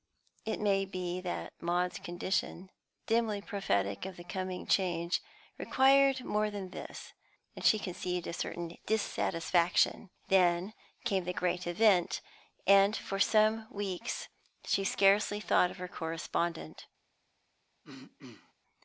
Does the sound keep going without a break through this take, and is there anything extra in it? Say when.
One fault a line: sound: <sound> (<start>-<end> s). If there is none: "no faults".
sound: throat clearing (17.8-18.5 s)